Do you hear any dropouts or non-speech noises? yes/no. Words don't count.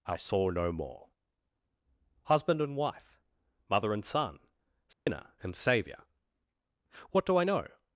yes